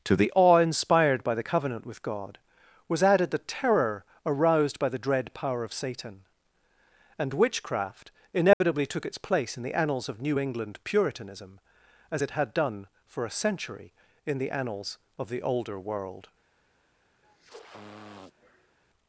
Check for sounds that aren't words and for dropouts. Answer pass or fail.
fail